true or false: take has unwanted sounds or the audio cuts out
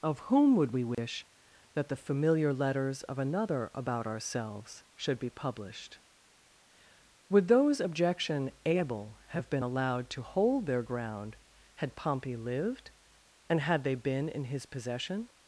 true